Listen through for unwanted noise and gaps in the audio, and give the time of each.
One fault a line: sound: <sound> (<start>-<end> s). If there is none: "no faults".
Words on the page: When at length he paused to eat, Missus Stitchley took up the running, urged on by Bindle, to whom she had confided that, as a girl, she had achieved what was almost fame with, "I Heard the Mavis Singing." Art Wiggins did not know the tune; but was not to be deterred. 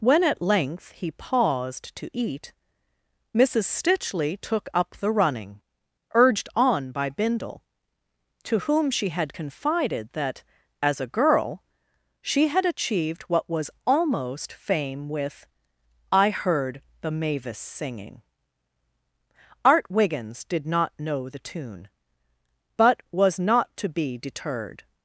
no faults